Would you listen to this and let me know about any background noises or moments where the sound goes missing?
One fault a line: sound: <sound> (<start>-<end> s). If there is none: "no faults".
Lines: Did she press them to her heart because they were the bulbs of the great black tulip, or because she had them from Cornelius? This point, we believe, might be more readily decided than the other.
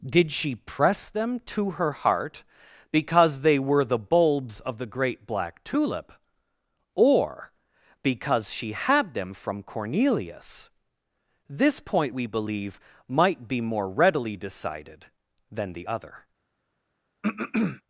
sound: throat clearing (17.2-17.8 s)